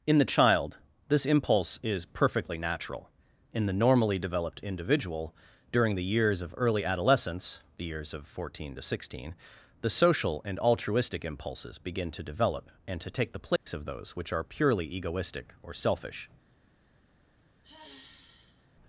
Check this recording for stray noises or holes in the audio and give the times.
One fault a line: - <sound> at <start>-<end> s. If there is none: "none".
- dropout at 13.6-13.7 s
- sigh at 17.6-18.7 s